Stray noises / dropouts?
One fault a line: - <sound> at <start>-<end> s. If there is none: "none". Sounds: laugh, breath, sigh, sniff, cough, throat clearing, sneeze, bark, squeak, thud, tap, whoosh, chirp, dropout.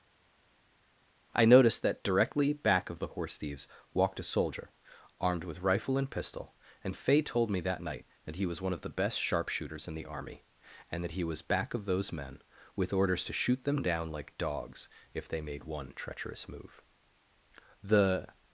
none